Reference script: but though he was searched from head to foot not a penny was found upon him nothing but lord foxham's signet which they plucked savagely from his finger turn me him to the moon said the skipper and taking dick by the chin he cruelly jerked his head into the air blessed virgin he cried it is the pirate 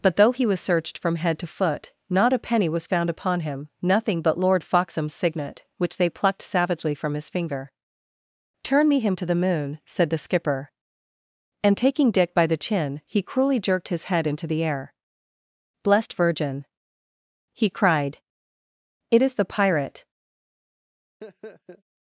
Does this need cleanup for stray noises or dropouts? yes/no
yes